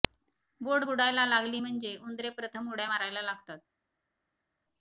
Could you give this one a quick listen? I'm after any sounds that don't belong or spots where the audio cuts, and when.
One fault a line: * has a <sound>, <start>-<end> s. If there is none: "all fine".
all fine